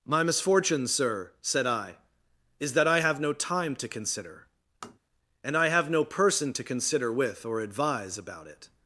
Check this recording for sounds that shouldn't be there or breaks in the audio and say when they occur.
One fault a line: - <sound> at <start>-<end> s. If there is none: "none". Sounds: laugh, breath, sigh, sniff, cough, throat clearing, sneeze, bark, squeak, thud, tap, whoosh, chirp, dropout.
- tap at 4.8-5.0 s